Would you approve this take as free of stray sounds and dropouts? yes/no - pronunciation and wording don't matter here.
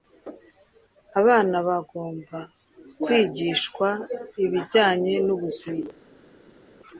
yes